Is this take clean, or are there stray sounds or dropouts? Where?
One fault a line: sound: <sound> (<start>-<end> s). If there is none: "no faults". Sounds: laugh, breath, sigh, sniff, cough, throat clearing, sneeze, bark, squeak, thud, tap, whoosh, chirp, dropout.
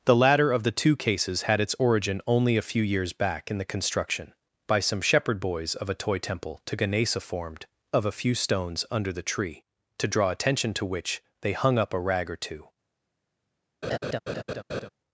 sound: laugh (13.8-14.9 s)